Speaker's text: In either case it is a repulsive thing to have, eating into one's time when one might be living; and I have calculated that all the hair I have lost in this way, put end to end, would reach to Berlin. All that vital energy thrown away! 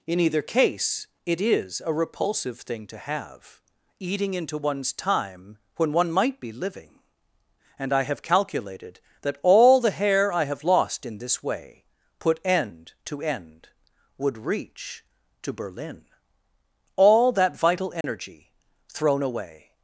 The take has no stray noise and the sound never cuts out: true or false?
false